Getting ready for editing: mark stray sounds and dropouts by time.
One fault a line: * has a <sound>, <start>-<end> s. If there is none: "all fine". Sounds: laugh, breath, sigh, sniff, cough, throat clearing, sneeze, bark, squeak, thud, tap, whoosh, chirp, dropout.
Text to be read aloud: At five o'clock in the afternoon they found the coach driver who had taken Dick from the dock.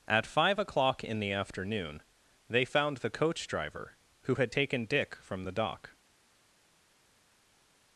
all fine